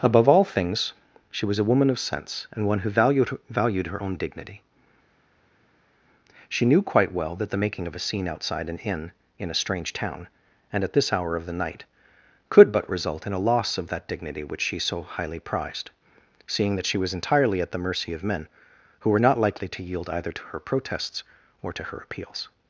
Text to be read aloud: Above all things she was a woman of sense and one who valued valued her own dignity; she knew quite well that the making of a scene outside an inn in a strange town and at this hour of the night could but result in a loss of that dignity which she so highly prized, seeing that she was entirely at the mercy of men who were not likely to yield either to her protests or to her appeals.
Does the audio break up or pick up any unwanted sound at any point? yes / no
no